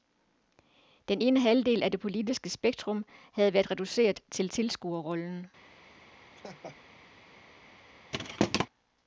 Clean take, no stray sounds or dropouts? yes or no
no